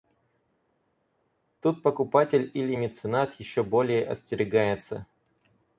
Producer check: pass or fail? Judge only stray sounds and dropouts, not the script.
pass